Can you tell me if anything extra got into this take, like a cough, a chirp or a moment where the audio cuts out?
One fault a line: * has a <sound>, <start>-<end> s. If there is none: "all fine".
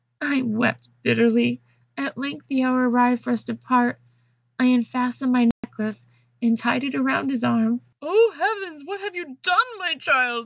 * has a dropout, 5.5-5.6 s